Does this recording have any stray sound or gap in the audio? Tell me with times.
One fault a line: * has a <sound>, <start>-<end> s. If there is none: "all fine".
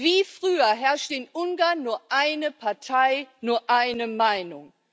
all fine